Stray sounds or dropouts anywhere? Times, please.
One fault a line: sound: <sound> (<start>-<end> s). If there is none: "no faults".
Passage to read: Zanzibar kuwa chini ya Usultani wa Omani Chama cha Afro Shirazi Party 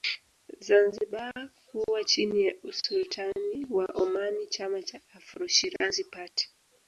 no faults